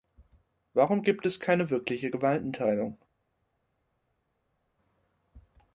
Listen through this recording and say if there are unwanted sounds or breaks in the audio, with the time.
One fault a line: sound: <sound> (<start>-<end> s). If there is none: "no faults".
no faults